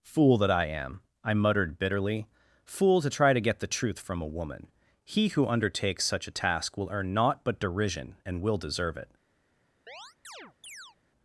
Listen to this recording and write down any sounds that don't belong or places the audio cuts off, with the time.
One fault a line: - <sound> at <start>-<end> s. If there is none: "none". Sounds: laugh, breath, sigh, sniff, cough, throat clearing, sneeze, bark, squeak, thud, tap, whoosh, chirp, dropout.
- chirp at 9.9-11.0 s